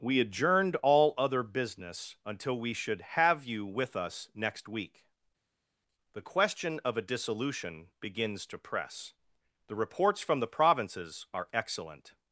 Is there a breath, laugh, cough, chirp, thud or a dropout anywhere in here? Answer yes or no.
no